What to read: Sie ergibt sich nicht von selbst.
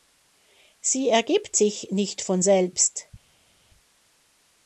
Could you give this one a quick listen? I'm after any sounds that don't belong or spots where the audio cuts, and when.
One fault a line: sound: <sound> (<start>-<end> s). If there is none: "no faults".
no faults